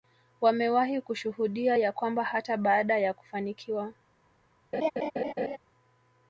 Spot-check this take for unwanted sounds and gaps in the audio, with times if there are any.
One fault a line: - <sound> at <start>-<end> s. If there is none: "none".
- laugh at 4.7-5.6 s